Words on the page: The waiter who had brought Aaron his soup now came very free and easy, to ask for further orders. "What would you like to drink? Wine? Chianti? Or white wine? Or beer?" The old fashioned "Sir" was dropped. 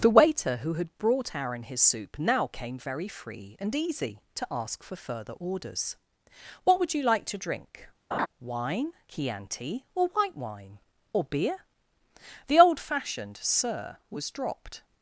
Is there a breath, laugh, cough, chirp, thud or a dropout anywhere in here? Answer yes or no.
yes